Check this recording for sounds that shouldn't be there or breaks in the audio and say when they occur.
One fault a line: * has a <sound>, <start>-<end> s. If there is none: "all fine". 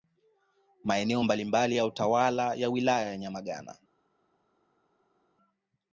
all fine